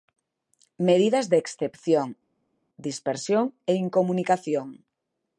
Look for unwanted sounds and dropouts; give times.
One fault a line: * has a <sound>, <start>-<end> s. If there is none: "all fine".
all fine